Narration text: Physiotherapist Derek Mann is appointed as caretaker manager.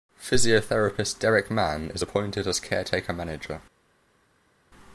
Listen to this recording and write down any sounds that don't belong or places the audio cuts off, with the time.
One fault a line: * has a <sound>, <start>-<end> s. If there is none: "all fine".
all fine